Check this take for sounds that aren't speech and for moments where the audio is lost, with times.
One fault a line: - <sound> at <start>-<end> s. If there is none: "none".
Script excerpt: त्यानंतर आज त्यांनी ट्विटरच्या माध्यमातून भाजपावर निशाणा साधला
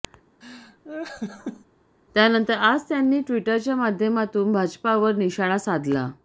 - laugh at 0.4-1.7 s